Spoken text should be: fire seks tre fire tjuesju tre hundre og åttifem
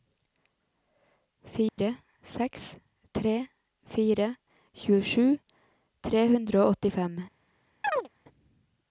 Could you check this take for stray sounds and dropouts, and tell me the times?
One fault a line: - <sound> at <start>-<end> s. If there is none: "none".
- dropout at 1.7-1.8 s
- chirp at 7.8-8.1 s